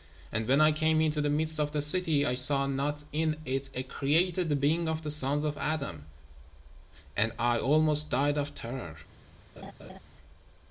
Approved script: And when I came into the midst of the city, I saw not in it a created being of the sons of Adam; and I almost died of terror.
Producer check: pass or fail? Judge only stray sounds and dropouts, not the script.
fail